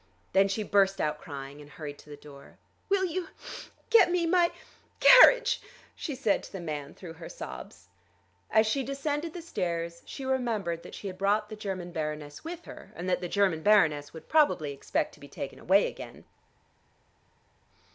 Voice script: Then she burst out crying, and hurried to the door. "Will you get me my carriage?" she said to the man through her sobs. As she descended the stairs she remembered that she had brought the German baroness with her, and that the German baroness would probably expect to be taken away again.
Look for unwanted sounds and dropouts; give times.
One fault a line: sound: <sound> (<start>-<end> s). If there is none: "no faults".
no faults